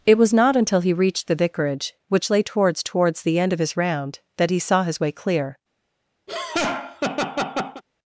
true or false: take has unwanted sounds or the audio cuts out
true